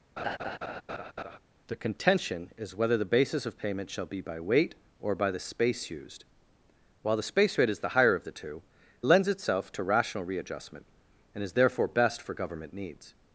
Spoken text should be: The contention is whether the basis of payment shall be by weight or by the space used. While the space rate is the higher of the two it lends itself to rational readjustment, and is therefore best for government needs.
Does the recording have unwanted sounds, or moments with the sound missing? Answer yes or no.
yes